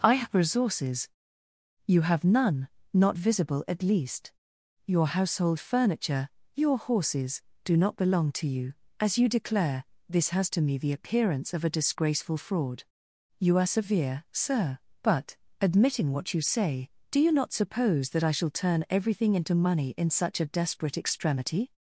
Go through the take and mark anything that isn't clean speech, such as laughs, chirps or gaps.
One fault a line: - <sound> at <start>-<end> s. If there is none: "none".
none